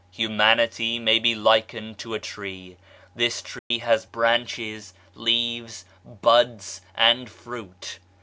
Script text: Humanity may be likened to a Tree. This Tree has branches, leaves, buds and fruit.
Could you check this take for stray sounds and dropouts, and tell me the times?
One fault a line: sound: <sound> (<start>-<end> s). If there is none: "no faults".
sound: dropout (3.6-3.7 s)